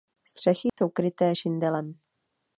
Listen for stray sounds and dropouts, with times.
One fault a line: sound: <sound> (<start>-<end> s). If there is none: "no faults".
sound: dropout (0.7-0.8 s)